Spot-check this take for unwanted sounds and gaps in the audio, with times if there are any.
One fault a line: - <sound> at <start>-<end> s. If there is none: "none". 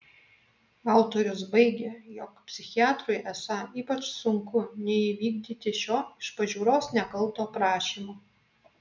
none